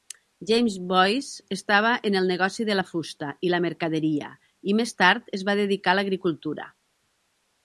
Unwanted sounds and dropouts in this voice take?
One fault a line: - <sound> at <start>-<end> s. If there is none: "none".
none